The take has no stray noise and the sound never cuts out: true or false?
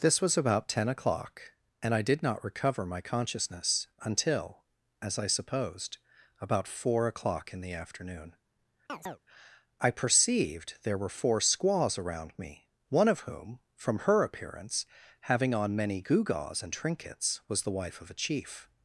false